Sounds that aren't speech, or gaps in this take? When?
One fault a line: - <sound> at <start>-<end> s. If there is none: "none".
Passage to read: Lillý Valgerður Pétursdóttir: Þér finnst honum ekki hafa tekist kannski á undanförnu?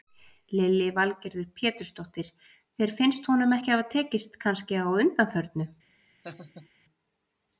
- laugh at 6.2-6.7 s